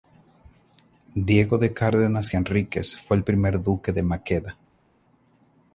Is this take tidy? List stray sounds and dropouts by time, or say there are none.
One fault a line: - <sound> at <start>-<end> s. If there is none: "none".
none